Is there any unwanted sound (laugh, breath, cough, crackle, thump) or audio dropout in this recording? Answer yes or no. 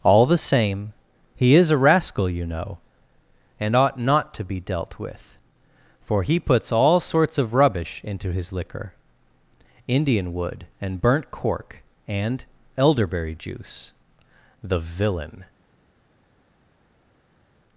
no